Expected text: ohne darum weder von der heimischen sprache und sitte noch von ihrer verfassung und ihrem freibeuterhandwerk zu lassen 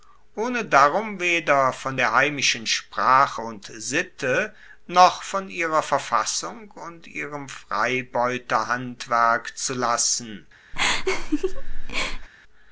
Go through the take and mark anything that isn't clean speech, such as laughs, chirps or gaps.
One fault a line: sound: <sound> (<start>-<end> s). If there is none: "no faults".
sound: laugh (10.7-12.3 s)